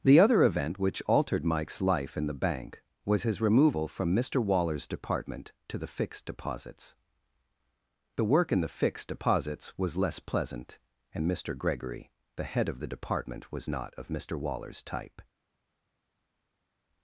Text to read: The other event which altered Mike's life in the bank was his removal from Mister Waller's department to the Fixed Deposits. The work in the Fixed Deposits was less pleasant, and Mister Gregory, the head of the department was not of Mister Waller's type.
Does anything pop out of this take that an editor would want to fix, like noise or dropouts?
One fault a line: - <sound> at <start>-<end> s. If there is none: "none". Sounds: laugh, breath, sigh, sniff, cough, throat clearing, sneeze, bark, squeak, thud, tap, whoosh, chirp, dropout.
none